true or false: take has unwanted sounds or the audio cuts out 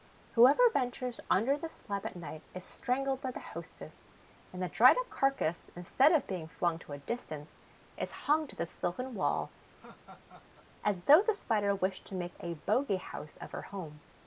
true